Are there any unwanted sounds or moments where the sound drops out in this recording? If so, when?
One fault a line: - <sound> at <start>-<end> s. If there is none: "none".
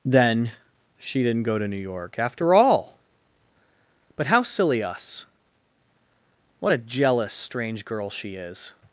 none